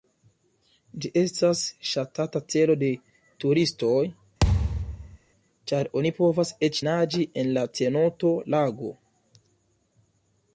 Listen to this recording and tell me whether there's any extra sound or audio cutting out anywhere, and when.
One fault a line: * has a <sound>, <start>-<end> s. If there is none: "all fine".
* has a thud, 4.4-5.2 s